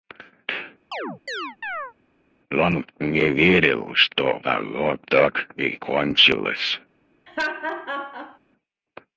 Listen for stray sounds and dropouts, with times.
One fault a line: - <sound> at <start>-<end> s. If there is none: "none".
- chirp at 0.9-1.9 s
- laugh at 7.3-8.4 s